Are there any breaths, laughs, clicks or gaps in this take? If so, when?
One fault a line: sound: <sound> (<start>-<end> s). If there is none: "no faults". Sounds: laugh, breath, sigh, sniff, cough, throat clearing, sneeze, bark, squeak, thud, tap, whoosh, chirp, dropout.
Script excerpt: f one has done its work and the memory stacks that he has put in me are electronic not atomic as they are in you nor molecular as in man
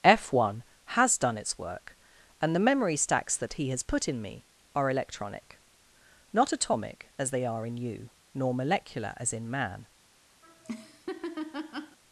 sound: laugh (10.4-12.0 s)